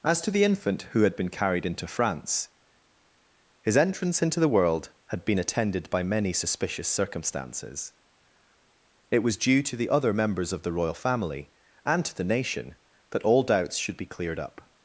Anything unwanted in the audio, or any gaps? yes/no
no